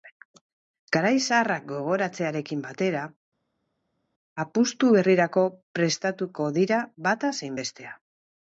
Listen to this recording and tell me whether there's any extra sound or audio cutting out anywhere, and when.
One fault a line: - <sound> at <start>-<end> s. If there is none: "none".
none